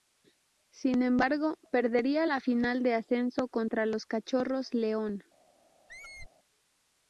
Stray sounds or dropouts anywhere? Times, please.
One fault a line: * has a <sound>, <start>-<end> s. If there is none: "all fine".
* has a squeak, 5.9-6.3 s